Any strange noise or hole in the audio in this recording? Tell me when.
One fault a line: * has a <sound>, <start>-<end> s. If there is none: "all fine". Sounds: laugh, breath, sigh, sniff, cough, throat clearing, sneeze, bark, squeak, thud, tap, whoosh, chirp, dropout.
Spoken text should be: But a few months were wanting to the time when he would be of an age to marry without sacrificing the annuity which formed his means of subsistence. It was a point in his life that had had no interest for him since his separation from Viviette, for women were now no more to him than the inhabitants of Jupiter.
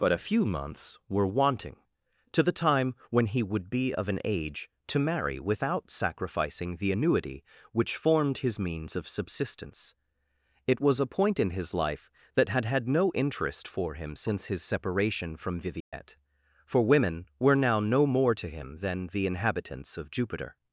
* has a dropout, 15.8-15.9 s